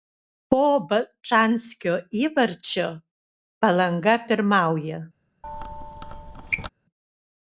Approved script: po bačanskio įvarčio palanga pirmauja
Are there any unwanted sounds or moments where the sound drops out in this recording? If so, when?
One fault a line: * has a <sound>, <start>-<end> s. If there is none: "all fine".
* has a squeak, 5.4-6.7 s